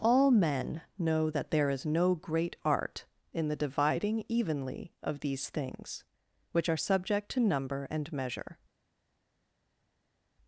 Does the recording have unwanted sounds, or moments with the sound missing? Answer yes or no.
no